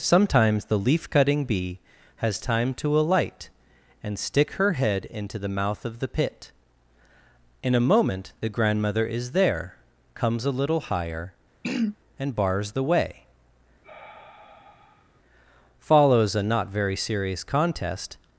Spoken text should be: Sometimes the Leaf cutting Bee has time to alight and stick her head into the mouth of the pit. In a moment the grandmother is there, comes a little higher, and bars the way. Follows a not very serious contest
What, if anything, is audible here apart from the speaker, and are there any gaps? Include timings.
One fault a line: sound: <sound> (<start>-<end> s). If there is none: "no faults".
sound: throat clearing (11.6-12.0 s)
sound: sigh (13.8-15.2 s)